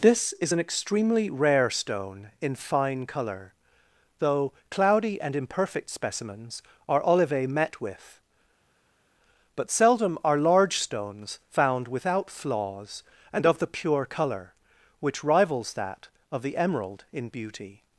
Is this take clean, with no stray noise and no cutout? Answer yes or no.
yes